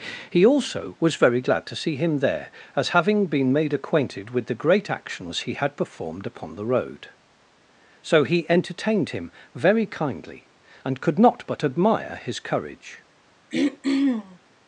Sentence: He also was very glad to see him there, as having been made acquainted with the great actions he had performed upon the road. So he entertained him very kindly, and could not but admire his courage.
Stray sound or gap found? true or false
true